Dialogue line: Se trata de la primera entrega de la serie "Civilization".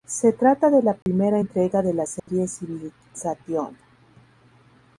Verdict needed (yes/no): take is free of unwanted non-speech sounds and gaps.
no